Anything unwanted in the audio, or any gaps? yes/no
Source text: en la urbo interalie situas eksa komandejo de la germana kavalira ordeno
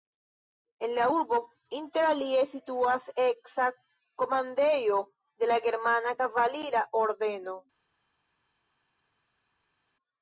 no